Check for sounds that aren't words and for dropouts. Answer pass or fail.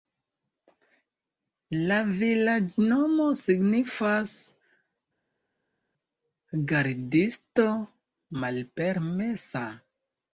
pass